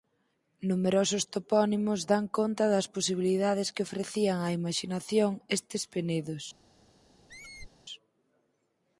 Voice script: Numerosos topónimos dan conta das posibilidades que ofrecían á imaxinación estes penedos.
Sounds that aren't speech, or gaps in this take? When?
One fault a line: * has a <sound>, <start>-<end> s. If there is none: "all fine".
* has a squeak, 7.3-7.7 s